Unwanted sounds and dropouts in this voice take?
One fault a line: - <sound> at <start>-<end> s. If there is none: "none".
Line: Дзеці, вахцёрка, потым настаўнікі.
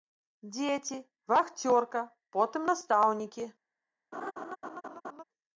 - laugh at 4.1-5.2 s